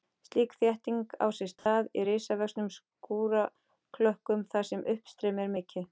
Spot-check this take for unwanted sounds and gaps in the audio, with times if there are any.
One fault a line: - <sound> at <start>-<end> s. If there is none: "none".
- dropout at 1.6-1.7 s